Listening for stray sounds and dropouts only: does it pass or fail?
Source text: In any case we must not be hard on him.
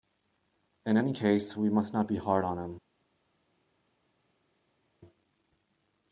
pass